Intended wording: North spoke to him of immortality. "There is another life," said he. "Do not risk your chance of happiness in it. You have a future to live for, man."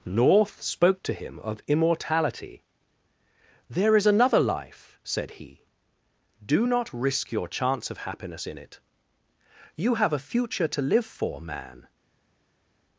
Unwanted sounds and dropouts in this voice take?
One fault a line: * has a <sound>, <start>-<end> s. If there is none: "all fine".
all fine